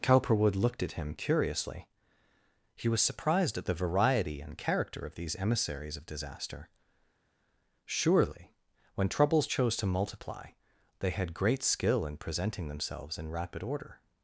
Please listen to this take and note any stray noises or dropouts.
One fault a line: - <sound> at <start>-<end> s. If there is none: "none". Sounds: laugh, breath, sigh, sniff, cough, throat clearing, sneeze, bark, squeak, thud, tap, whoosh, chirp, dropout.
none